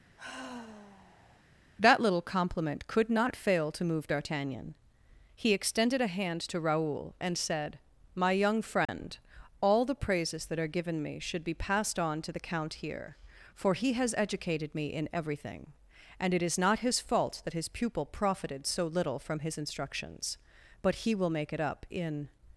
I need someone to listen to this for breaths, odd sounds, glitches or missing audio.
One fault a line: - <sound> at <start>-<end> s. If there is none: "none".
- sigh at 0.2-1.4 s
- dropout at 8.9-8.9 s